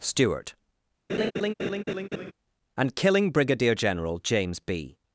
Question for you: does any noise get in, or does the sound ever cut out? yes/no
yes